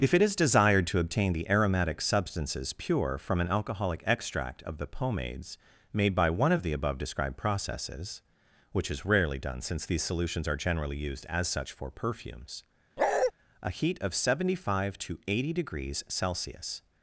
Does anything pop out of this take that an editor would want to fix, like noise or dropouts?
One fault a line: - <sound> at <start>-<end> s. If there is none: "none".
- bark at 13.0-13.3 s